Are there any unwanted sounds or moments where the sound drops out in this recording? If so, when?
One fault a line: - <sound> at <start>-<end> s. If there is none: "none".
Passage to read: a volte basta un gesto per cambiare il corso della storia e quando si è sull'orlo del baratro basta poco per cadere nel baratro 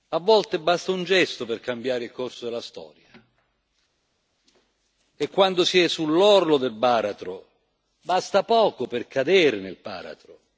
none